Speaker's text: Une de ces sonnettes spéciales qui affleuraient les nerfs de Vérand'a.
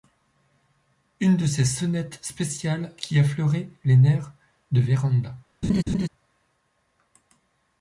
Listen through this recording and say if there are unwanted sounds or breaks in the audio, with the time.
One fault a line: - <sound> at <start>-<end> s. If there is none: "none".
- laugh at 5.6-6.1 s